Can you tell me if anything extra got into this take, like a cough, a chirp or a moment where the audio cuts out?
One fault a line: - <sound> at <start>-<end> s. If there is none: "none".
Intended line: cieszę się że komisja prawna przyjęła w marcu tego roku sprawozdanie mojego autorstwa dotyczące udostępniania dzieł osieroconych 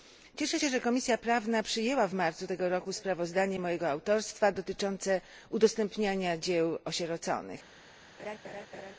- laugh at 8.2-8.9 s